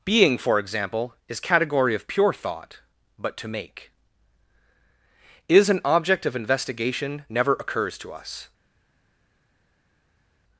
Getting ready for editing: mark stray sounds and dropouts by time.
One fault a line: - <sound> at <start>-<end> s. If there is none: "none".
none